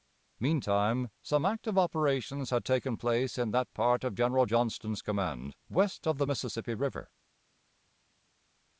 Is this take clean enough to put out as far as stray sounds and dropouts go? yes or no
yes